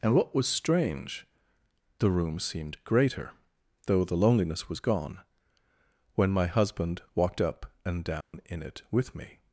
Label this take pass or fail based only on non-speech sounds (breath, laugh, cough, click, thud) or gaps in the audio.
fail